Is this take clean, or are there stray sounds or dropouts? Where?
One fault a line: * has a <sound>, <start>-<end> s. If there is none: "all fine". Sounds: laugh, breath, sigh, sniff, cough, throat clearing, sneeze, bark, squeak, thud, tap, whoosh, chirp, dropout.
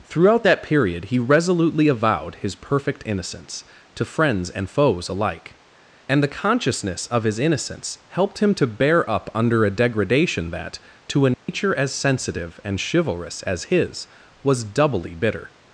* has a dropout, 11.3-11.5 s